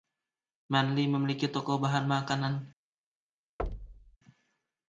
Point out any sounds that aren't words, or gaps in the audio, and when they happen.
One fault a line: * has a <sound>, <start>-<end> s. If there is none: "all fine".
* has a thud, 3.6-4.2 s